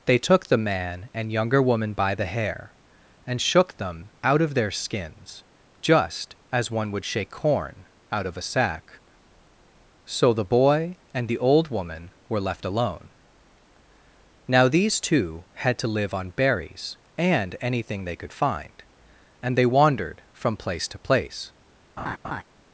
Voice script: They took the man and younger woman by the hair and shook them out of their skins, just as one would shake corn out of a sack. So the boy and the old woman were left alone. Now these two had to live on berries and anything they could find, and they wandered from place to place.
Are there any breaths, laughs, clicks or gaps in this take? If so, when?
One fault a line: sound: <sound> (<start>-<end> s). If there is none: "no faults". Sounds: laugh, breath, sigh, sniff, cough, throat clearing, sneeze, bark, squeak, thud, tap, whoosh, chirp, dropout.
sound: laugh (22.0-22.4 s)